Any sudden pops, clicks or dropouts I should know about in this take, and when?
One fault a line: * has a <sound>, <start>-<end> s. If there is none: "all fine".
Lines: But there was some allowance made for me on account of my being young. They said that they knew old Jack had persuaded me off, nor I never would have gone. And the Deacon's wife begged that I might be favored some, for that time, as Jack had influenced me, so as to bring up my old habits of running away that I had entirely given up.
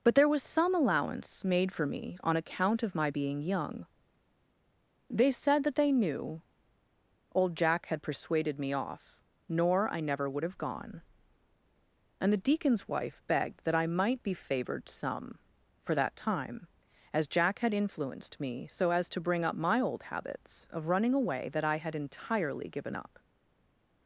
all fine